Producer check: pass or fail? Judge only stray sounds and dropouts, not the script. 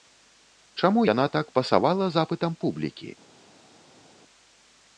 pass